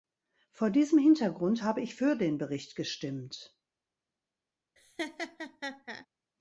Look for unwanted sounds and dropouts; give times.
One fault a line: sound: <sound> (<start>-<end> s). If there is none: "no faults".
sound: laugh (4.8-6.1 s)